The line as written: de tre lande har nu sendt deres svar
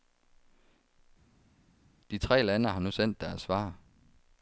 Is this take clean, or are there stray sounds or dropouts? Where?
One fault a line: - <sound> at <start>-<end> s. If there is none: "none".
none